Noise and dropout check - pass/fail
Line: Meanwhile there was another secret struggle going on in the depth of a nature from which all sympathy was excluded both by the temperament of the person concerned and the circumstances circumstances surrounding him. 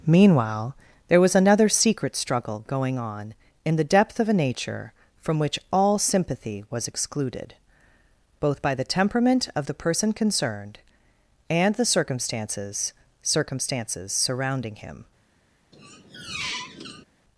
fail